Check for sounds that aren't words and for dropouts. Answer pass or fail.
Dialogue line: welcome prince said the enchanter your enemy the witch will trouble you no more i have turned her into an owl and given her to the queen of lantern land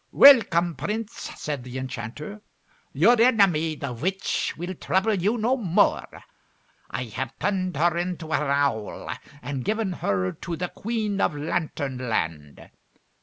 pass